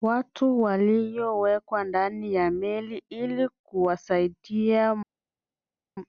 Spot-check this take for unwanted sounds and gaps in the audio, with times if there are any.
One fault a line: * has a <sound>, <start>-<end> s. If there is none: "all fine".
all fine